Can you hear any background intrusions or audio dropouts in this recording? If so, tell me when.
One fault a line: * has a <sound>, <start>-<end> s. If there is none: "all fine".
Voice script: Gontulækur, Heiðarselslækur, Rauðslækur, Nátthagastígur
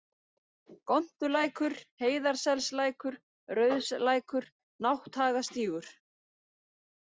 all fine